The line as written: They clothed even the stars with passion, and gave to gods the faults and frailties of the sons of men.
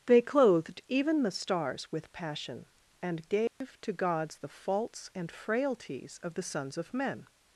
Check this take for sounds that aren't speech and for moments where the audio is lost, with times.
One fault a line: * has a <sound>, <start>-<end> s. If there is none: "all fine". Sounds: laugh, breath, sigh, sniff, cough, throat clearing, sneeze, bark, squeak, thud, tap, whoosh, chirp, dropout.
* has a dropout, 3.5-3.6 s